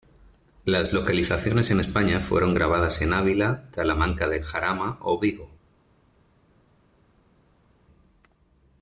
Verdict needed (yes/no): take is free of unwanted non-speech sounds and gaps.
yes